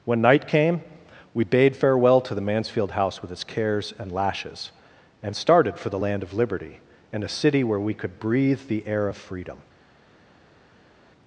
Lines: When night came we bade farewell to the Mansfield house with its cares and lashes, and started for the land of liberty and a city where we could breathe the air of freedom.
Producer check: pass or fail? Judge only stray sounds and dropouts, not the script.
pass